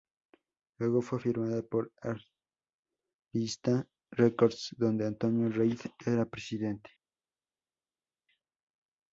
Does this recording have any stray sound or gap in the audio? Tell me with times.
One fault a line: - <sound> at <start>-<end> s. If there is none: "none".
none